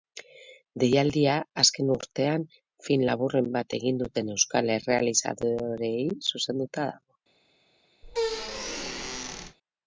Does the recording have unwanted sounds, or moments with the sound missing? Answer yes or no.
yes